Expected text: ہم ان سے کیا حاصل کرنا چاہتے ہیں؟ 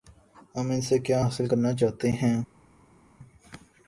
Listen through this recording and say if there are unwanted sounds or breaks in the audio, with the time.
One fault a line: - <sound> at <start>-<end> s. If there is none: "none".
none